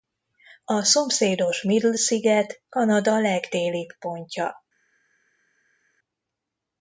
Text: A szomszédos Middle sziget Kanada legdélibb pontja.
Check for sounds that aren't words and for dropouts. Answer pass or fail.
pass